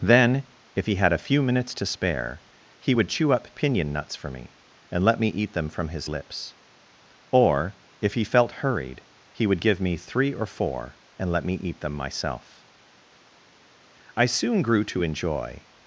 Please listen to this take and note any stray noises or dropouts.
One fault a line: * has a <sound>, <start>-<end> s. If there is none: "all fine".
all fine